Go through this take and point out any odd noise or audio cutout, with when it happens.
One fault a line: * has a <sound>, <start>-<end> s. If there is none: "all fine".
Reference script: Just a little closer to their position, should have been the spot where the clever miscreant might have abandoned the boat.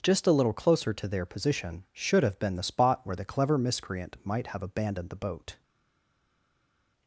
all fine